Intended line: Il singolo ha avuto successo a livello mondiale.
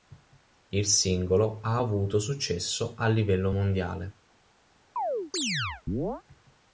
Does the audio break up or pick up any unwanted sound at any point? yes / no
yes